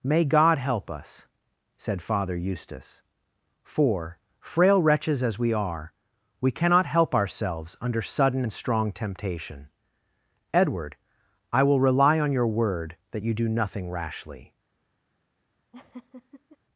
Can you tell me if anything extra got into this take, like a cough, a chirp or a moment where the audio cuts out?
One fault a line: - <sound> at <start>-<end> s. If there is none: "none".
- laugh at 15.7-16.6 s